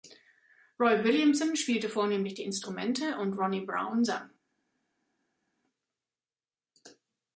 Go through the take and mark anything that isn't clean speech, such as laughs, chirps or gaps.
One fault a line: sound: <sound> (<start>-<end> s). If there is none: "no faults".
no faults